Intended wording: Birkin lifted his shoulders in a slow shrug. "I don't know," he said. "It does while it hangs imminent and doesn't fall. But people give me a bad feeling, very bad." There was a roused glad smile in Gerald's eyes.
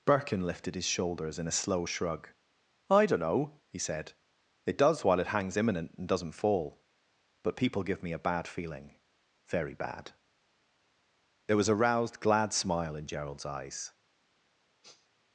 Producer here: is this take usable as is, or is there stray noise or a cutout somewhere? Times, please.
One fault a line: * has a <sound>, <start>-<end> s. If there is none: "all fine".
* has a sniff, 14.8-15.1 s